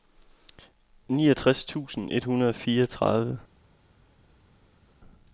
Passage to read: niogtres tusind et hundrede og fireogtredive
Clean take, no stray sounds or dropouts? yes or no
yes